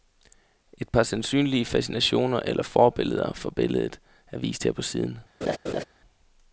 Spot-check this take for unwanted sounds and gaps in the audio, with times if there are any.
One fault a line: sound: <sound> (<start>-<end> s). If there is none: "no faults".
sound: laugh (5.4-5.8 s)